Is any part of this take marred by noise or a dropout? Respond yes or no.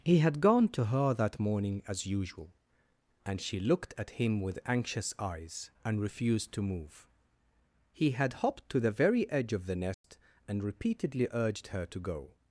yes